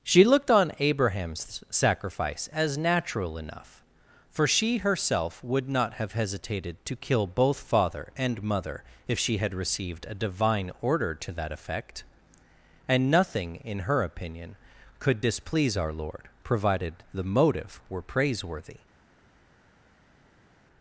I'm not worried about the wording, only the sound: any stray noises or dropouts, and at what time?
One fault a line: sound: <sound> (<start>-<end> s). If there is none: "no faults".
no faults